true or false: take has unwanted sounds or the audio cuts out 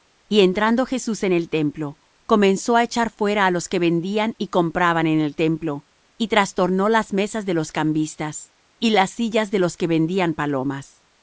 false